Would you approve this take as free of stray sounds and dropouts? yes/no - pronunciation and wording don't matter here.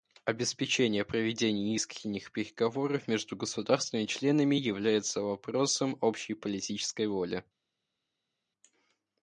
yes